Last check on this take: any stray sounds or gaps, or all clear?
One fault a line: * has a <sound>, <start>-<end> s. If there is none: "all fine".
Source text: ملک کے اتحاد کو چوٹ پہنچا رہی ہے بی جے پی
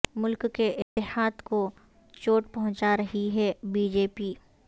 * has a dropout, 0.8-1.0 s